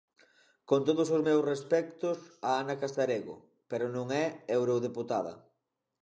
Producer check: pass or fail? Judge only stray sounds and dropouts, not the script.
pass